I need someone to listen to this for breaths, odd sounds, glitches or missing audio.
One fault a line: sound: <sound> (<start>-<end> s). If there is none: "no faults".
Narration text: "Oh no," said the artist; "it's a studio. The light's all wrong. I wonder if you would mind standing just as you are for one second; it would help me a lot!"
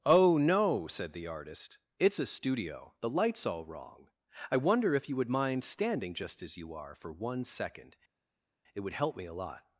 no faults